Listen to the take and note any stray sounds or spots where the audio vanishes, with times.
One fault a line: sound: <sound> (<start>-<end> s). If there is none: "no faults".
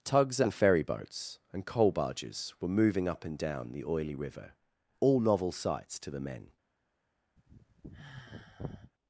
sound: sigh (7.4-8.9 s)